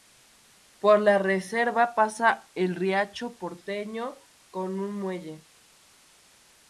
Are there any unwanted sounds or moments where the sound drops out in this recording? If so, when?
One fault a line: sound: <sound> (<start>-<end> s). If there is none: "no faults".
no faults